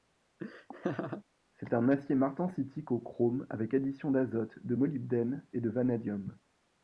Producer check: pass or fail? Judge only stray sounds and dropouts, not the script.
fail